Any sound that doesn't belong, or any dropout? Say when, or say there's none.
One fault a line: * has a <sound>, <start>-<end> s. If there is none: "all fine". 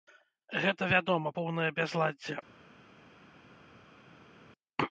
all fine